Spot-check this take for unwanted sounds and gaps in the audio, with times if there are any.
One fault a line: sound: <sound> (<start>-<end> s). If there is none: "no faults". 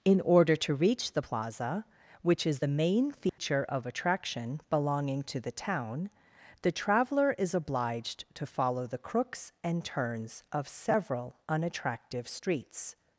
sound: dropout (3.3-3.4 s)